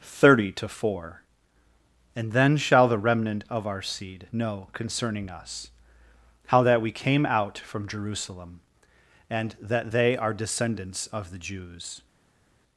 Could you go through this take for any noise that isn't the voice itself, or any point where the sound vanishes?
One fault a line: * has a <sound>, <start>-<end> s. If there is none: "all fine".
all fine